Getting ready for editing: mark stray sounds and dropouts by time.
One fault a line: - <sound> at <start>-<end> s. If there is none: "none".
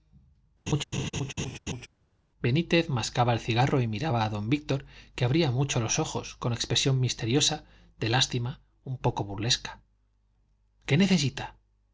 - laugh at 0.7-1.9 s